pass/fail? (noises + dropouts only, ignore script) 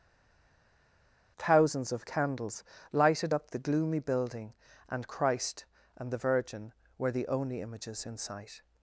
pass